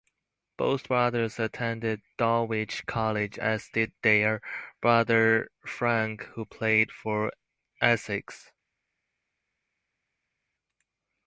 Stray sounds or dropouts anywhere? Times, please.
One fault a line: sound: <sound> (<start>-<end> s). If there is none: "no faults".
no faults